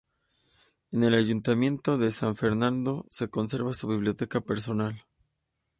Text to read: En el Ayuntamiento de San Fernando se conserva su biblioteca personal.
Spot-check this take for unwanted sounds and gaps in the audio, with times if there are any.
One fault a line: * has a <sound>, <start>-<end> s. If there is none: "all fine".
all fine